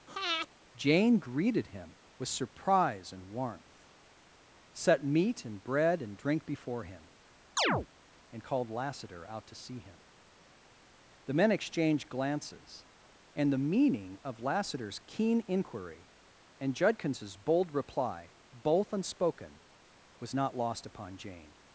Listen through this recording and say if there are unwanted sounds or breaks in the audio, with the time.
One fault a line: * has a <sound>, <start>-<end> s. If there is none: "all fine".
* has a breath, 0.1-0.5 s
* has a chirp, 7.6-7.9 s